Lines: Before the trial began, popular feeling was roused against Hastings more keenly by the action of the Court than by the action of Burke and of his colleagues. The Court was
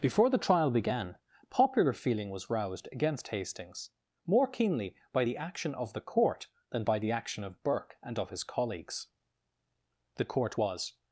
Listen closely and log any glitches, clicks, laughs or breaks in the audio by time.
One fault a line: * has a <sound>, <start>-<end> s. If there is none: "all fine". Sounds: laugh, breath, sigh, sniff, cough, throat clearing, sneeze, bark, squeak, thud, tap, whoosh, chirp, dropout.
all fine